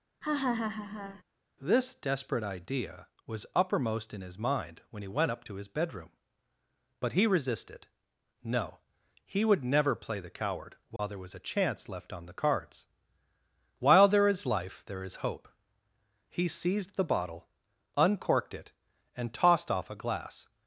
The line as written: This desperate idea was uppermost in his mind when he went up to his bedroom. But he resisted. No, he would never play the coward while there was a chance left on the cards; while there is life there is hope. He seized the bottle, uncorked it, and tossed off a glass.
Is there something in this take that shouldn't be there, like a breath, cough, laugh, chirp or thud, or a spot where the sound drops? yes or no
yes